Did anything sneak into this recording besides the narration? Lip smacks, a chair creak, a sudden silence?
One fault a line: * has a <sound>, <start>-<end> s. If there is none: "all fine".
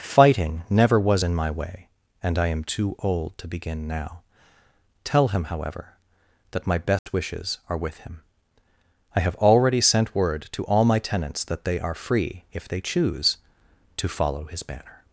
* has a dropout, 7.0-7.1 s